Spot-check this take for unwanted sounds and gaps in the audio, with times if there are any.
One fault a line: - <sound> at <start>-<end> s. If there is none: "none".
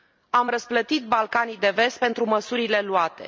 none